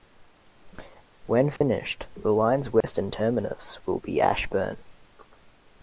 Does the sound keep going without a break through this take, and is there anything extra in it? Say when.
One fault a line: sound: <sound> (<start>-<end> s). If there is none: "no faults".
sound: dropout (1.6-1.6 s)
sound: dropout (2.8-2.8 s)